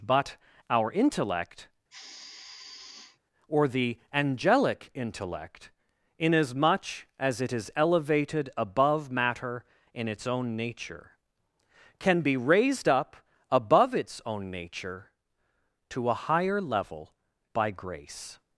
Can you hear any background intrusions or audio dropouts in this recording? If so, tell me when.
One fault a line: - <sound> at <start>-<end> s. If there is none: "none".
- sigh at 1.9-3.2 s